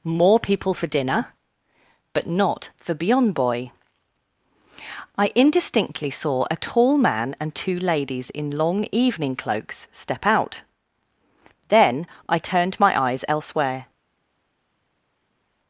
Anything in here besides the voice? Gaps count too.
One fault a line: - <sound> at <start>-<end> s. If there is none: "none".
none